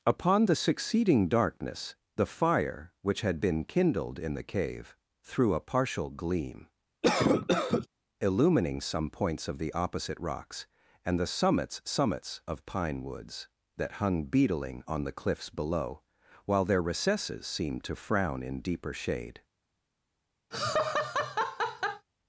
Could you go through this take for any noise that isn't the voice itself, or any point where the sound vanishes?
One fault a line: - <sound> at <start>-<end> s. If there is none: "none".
- cough at 7.0-7.9 s
- laugh at 20.5-22.1 s